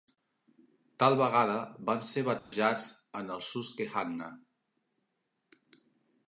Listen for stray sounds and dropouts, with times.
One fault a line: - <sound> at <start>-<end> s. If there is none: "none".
- dropout at 2.4-2.5 s